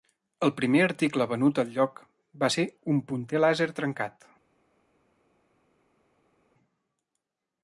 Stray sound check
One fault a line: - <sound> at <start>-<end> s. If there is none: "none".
none